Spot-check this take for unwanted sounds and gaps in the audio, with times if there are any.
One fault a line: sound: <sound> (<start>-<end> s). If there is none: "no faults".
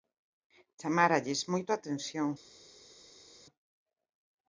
no faults